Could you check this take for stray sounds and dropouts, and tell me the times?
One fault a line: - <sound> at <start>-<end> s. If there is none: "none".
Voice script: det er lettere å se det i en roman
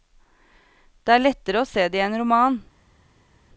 none